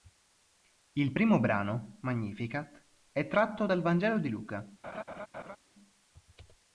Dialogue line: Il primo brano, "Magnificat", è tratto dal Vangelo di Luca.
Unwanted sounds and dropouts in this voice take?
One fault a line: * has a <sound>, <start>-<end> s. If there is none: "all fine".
* has a laugh, 4.8-5.6 s